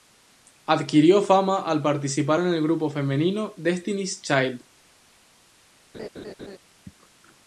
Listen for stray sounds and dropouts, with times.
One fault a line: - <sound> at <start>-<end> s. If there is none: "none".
- laugh at 5.9-6.6 s